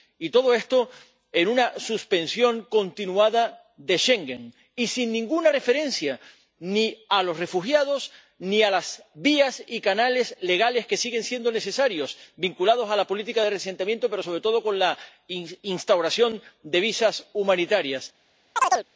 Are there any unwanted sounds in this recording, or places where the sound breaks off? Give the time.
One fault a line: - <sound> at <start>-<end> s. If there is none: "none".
- chirp at 18.6-18.9 s